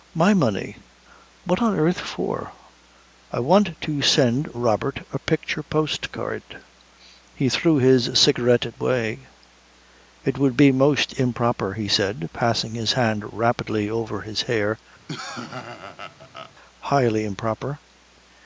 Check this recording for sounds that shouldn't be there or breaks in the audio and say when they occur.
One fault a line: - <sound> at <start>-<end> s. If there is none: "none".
- laugh at 15.1-16.5 s